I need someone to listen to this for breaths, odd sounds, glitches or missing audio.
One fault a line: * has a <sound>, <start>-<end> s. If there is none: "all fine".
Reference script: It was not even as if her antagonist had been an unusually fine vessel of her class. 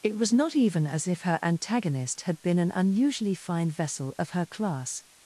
all fine